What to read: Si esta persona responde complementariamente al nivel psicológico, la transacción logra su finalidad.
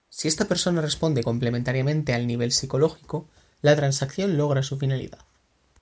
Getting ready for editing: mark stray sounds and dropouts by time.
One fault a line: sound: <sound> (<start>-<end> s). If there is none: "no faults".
no faults